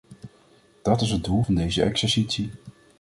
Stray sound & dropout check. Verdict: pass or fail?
pass